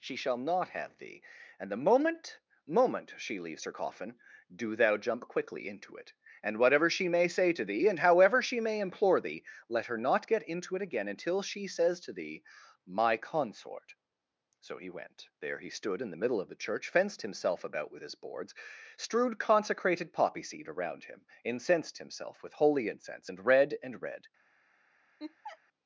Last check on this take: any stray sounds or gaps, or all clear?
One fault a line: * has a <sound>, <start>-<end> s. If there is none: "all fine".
* has a laugh, 25.2-25.6 s